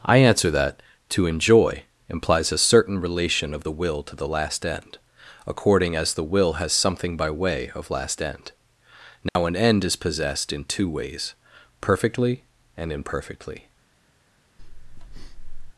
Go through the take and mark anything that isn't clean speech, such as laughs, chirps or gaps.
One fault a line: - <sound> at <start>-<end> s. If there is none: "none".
- dropout at 9.3-9.4 s
- breath at 14.6-15.7 s